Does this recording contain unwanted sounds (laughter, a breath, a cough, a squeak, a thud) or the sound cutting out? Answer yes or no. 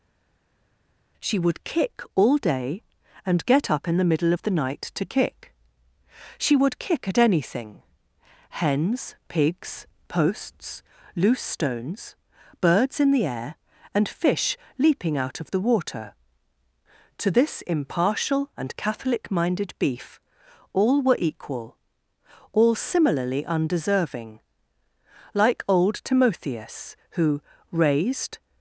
no